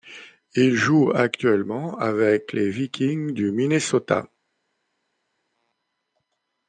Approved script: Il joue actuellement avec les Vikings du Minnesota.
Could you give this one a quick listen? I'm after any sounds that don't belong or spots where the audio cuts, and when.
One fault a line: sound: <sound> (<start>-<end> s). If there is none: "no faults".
no faults